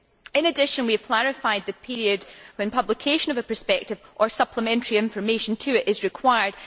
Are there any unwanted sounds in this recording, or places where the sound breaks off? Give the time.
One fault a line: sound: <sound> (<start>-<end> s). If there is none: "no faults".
no faults